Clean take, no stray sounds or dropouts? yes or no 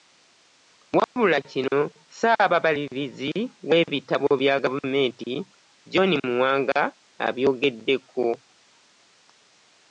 no